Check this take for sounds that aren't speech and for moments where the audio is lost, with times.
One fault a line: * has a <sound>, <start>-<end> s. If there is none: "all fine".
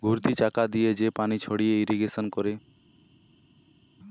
all fine